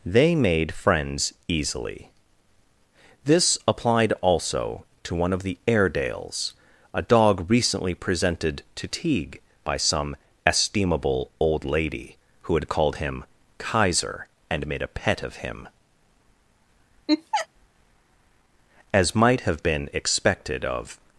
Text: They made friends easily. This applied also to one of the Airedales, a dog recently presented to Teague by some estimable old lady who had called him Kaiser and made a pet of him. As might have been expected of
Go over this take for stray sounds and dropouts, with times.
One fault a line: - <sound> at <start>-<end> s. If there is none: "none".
- laugh at 17.1-17.5 s